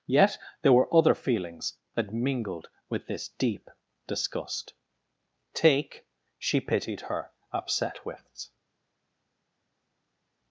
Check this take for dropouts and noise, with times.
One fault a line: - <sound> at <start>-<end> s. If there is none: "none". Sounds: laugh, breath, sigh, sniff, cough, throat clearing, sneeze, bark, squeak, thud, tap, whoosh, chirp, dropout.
none